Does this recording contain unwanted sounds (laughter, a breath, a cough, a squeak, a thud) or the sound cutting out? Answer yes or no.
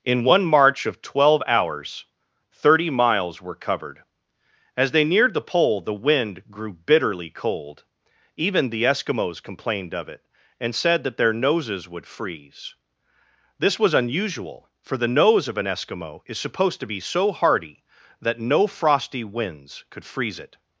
no